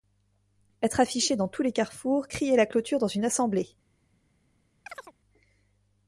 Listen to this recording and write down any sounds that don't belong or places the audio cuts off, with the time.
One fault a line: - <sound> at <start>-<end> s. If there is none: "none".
- chirp at 4.9-5.1 s